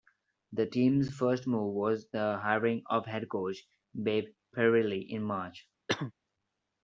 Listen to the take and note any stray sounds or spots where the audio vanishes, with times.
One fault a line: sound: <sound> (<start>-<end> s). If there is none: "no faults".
sound: cough (5.9-6.1 s)